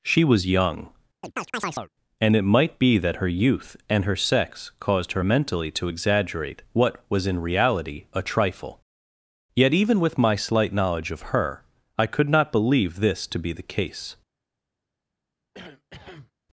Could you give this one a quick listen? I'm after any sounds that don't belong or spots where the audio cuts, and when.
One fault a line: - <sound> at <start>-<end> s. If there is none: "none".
- chirp at 1.2-1.9 s
- cough at 15.5-16.3 s